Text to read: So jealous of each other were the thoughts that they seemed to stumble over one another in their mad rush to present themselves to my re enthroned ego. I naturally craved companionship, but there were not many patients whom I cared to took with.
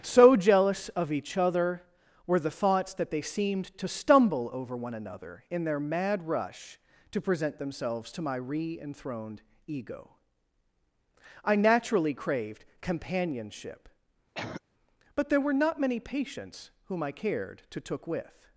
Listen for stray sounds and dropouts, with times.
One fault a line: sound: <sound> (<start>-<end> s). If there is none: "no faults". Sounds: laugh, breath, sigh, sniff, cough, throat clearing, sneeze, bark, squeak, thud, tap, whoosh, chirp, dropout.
sound: cough (14.3-14.6 s)